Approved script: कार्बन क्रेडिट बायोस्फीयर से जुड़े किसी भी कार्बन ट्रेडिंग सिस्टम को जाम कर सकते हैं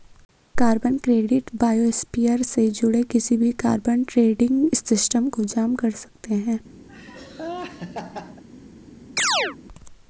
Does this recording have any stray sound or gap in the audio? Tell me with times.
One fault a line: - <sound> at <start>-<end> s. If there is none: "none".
- laugh at 6.9-8.4 s
- chirp at 9.2-9.6 s